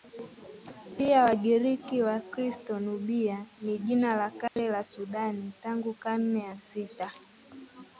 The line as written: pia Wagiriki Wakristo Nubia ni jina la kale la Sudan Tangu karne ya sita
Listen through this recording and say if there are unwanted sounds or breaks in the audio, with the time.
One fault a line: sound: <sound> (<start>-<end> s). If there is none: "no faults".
sound: dropout (4.5-4.6 s)